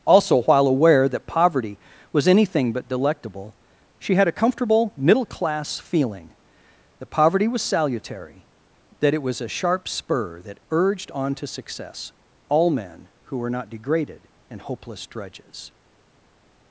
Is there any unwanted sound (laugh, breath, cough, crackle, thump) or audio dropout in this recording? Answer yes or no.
no